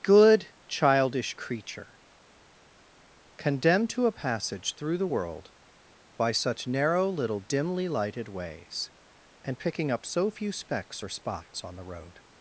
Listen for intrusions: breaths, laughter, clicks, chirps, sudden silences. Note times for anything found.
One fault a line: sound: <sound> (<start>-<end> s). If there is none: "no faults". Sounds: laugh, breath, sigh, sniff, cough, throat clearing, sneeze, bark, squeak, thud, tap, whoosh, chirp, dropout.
no faults